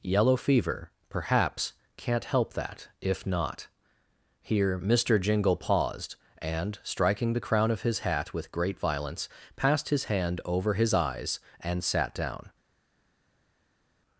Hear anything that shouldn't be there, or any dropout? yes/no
no